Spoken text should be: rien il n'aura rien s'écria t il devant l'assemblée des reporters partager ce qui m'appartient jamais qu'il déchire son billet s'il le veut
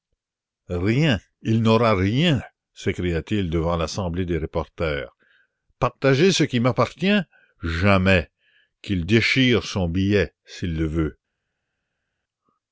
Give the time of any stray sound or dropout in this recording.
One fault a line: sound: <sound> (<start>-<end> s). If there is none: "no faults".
no faults